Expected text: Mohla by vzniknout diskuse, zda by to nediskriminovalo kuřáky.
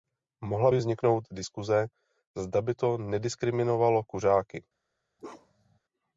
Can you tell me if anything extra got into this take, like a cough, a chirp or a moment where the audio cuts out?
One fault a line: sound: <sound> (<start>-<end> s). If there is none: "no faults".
sound: bark (5.2-5.8 s)